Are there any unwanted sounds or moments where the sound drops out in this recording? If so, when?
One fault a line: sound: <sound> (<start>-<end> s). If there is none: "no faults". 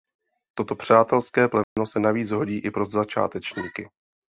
sound: dropout (1.6-1.8 s)